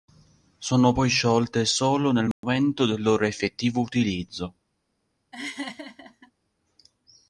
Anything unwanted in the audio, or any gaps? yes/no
yes